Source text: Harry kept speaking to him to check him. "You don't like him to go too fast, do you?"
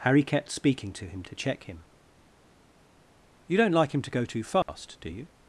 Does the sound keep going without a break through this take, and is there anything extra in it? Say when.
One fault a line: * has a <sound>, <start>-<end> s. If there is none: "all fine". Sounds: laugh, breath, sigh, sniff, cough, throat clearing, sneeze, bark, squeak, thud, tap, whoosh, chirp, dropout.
* has a dropout, 4.6-4.7 s